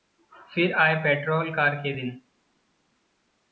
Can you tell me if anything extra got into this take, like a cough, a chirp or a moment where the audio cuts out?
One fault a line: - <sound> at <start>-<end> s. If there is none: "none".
none